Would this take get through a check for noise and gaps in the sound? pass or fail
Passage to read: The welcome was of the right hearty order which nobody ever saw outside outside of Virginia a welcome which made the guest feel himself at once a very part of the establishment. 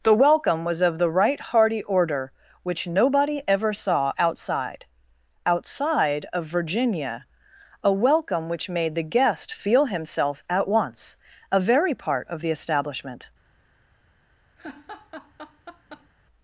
fail